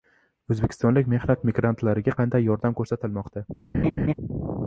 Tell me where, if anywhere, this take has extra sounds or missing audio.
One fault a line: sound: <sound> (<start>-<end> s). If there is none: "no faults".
sound: laugh (3.7-4.1 s)